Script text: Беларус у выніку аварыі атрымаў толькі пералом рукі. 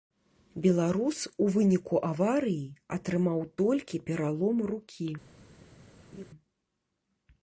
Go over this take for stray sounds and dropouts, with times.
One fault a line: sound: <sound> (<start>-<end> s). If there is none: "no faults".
sound: laugh (6.1-6.3 s)